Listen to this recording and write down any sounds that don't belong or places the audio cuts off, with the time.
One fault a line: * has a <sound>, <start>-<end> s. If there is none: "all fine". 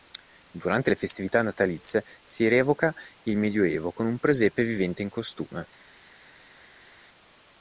all fine